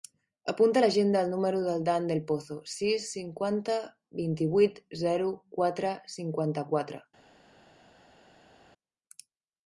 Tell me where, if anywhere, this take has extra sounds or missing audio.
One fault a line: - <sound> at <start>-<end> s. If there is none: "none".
none